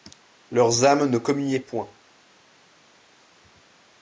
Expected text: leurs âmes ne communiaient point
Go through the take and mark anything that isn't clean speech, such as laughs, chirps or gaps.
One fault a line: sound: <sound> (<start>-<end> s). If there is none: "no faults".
no faults